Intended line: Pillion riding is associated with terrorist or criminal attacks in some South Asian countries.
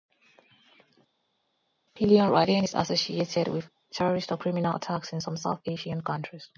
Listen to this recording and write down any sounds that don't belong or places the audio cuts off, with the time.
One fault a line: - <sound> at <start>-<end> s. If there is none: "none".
none